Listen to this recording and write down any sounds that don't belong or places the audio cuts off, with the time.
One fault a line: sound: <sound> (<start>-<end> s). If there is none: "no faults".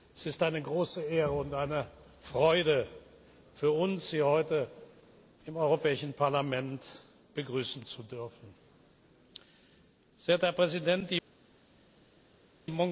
no faults